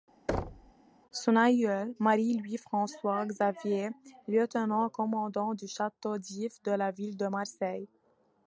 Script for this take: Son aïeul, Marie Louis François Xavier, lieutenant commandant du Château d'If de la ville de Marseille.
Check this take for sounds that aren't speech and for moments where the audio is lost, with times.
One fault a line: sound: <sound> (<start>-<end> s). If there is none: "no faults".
sound: thud (0.3-0.7 s)